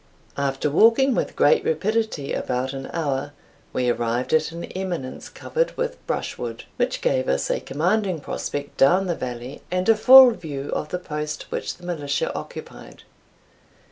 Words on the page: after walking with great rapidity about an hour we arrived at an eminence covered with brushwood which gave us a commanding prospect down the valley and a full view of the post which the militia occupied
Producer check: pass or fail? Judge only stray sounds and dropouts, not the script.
pass